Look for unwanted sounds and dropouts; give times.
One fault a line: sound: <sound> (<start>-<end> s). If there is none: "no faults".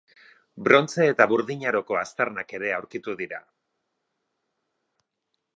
no faults